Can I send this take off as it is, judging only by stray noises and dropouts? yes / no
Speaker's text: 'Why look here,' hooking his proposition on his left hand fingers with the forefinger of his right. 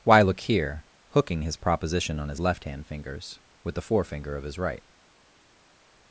yes